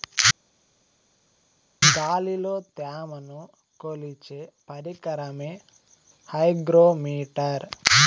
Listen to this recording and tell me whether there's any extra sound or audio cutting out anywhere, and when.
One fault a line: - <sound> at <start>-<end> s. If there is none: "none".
none